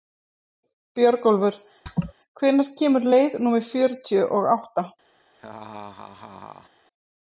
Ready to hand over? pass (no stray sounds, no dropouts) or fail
fail